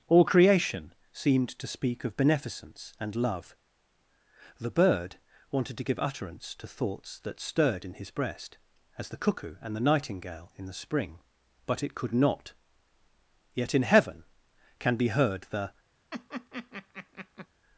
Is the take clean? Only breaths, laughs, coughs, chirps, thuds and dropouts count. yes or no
no